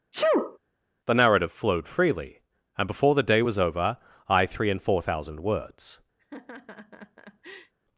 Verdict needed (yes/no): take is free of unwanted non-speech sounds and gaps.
no